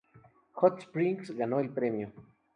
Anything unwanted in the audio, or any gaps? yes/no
no